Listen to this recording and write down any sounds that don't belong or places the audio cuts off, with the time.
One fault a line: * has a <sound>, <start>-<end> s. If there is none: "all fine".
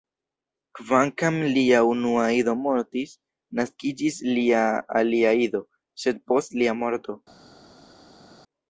all fine